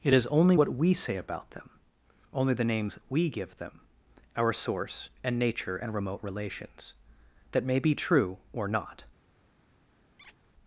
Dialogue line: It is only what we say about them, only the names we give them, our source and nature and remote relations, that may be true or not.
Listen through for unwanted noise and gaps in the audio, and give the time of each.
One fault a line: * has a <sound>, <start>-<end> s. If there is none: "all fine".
* has a squeak, 10.2-10.4 s